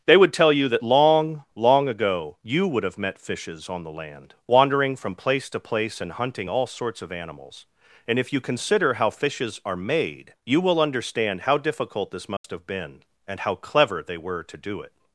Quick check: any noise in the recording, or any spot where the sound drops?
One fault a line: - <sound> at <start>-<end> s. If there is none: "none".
- dropout at 12.4-12.4 s